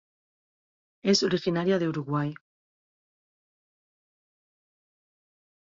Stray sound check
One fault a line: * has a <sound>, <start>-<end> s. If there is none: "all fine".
all fine